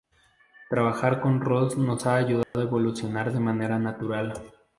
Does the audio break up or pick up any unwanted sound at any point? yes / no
yes